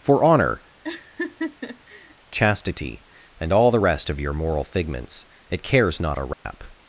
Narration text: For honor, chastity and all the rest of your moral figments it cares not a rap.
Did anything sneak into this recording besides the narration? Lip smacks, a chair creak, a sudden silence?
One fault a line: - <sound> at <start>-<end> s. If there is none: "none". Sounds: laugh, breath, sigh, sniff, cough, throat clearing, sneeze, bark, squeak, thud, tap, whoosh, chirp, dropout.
- laugh at 0.8-2.1 s
- dropout at 6.3-6.5 s